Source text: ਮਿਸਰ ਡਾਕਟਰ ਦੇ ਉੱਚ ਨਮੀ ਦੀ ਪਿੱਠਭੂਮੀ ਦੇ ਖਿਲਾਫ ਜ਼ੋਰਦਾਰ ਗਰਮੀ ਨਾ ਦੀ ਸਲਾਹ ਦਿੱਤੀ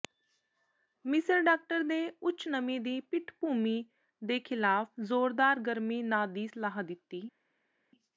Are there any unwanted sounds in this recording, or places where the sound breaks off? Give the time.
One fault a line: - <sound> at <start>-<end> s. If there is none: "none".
none